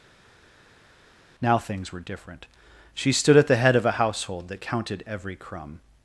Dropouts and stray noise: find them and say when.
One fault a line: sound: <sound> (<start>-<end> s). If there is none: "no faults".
no faults